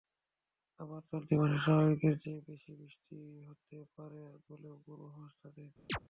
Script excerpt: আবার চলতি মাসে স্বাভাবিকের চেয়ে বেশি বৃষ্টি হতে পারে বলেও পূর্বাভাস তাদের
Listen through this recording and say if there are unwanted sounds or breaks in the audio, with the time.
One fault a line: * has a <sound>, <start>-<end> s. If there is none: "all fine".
* has a chirp, 5.9-6.0 s